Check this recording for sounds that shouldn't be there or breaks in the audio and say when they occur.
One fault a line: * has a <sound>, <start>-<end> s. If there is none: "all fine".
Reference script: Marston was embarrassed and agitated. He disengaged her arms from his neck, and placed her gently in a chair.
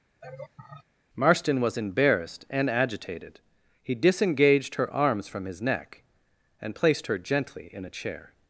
* has a laugh, 0.2-0.8 s